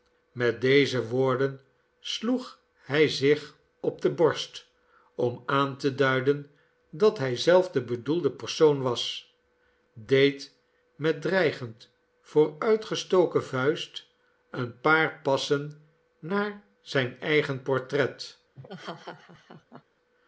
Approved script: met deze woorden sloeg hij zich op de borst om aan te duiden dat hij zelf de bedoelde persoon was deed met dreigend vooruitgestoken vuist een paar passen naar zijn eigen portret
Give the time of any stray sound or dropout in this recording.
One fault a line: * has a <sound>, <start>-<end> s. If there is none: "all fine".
* has a laugh, 18.5-19.8 s